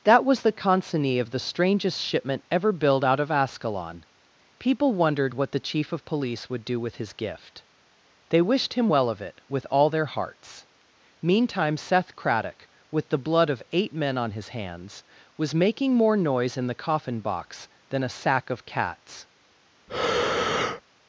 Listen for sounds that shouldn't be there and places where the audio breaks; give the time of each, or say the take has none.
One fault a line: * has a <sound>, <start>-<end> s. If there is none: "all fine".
* has a breath, 19.9-20.8 s